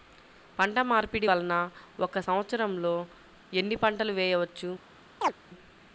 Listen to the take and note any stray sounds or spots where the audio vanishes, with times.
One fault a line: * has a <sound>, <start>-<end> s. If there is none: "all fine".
* has a chirp, 5.2-5.3 s